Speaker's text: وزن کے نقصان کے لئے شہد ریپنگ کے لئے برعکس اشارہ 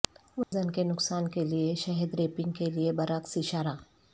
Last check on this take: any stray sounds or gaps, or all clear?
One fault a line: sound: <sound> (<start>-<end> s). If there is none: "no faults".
sound: dropout (0.4-0.5 s)